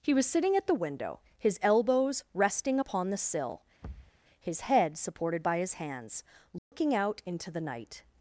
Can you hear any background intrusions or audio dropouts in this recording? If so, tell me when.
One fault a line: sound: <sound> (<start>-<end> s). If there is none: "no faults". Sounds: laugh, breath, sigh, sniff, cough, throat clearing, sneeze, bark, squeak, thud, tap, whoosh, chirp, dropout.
sound: thud (3.8-4.2 s)
sound: dropout (6.6-6.7 s)